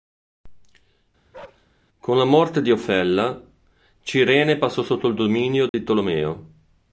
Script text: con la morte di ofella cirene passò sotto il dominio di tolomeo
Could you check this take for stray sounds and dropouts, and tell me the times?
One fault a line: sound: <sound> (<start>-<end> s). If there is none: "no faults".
sound: bark (1.3-1.7 s)
sound: dropout (5.7-5.7 s)